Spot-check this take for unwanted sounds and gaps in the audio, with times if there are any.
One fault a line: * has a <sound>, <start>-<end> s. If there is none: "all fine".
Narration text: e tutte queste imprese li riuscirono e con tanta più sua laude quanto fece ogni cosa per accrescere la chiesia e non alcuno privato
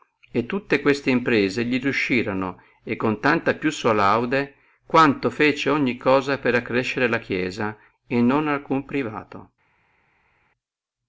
all fine